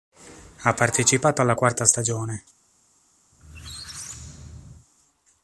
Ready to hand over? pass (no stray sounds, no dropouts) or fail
fail